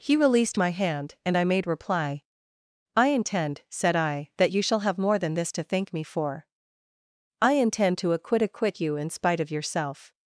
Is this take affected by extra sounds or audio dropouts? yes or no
no